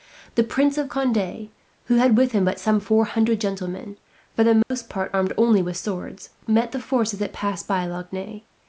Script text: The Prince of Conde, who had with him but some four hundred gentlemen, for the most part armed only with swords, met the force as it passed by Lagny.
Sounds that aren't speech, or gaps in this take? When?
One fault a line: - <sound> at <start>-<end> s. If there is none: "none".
- dropout at 4.6-4.7 s